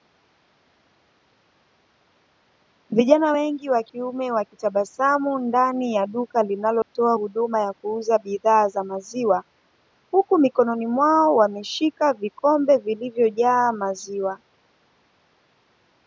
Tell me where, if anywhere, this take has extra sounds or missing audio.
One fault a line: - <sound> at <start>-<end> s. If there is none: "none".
- dropout at 6.8-7.0 s